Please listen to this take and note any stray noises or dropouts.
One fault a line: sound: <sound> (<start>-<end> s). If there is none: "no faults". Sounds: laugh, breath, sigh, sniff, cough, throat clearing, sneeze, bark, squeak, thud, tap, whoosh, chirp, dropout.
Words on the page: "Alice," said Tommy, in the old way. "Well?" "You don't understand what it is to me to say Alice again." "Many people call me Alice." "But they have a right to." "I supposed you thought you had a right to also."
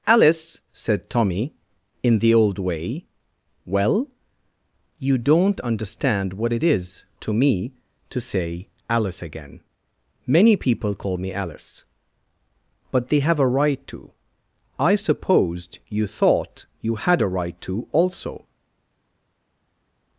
no faults